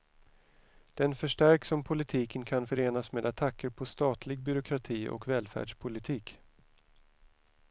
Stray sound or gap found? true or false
false